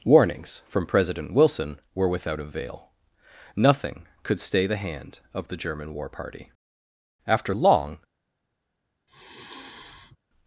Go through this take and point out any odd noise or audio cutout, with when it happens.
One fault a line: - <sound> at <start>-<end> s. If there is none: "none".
- sigh at 9.1-10.2 s